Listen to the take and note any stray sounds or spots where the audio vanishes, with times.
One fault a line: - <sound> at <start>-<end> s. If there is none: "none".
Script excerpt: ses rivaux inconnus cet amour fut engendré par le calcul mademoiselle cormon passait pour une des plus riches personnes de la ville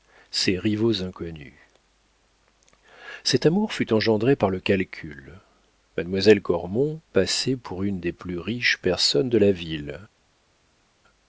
none